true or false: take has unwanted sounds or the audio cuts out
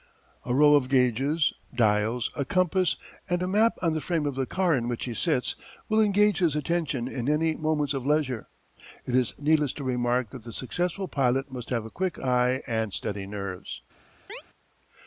true